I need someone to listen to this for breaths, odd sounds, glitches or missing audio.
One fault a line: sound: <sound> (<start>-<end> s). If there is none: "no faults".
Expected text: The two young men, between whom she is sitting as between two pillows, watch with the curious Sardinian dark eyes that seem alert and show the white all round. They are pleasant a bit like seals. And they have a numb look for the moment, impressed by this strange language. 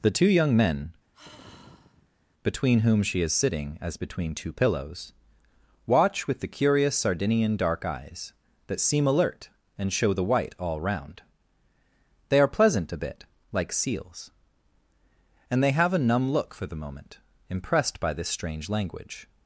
sound: sigh (1.1-2.2 s)